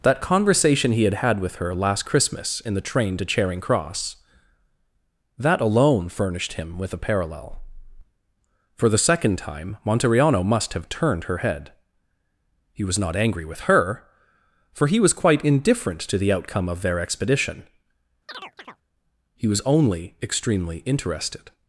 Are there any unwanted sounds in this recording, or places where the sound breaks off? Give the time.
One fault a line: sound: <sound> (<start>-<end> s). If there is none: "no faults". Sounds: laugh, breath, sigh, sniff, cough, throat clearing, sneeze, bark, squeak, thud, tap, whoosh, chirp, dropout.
sound: chirp (18.3-18.8 s)